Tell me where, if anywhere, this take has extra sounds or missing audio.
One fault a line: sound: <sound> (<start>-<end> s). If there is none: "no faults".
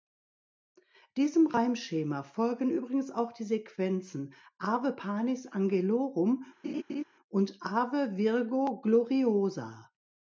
sound: laugh (6.6-7.0 s)